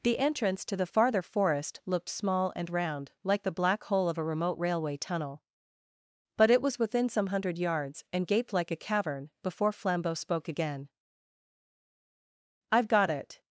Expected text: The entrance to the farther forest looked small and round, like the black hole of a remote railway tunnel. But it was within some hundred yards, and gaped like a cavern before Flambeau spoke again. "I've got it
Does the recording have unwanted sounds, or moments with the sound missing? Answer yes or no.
no